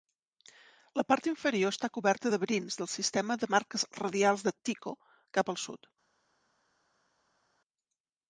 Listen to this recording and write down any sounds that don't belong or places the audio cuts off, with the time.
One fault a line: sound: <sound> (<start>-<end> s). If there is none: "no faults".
no faults